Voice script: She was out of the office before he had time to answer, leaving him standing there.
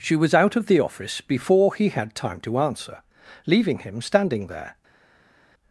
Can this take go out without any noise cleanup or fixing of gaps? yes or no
yes